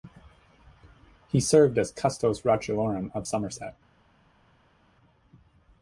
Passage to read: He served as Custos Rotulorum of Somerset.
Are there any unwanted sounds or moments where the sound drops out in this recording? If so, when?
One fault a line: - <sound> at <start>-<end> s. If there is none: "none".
none